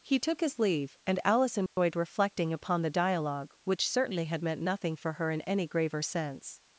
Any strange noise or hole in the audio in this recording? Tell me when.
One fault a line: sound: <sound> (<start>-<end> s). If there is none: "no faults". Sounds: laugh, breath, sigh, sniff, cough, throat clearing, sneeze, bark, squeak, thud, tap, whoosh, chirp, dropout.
sound: dropout (1.7-1.8 s)